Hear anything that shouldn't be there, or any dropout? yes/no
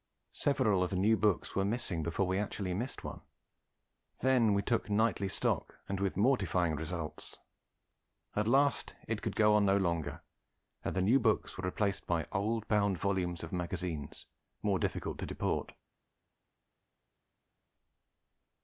no